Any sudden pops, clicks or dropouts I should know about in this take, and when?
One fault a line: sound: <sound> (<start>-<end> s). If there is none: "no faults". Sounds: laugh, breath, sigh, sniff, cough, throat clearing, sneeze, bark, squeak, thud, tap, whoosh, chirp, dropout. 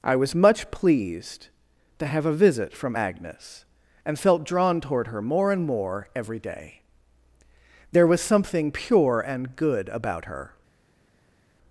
no faults